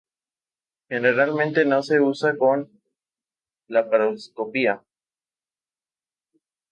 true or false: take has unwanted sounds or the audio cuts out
false